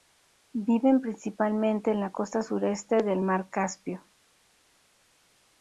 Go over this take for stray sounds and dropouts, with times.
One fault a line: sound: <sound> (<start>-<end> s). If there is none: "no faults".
no faults